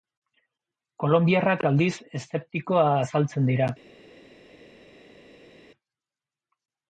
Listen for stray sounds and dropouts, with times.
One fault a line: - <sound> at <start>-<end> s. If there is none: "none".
none